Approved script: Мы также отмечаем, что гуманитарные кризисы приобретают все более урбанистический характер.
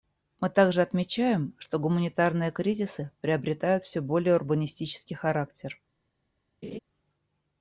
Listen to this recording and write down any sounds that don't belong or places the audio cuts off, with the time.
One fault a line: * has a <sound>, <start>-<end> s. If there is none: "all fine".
* has a laugh, 6.6-6.8 s